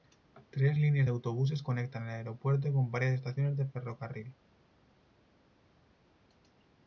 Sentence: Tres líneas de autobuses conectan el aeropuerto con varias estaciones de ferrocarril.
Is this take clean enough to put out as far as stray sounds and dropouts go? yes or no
yes